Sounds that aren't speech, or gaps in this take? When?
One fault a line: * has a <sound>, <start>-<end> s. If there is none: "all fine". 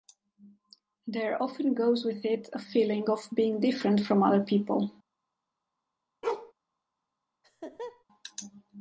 * has a bark, 6.2-6.5 s
* has a laugh, 7.4-8.0 s